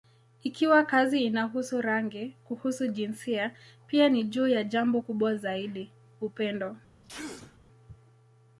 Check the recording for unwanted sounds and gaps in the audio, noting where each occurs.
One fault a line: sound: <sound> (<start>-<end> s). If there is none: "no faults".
sound: sneeze (7.0-7.6 s)